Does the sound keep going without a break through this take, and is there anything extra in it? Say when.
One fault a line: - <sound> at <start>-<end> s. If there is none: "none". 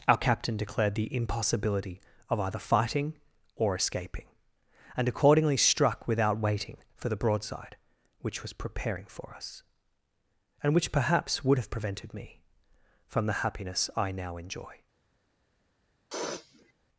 - sniff at 16.1-16.7 s